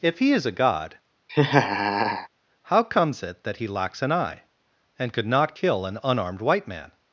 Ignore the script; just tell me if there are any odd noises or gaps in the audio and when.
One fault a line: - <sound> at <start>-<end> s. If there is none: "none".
- laugh at 1.3-2.3 s